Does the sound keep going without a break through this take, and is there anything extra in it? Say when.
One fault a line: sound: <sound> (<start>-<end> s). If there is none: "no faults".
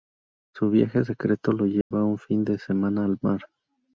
sound: dropout (1.8-1.9 s)